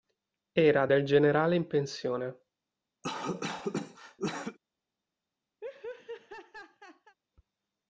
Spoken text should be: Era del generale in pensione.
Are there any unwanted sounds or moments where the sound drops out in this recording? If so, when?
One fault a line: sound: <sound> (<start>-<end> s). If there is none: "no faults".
sound: cough (3.0-4.6 s)
sound: laugh (5.6-7.2 s)